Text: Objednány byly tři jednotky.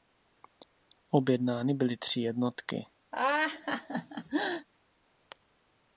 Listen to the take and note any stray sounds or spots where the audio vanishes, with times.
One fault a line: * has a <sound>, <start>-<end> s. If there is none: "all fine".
* has a laugh, 3.1-4.7 s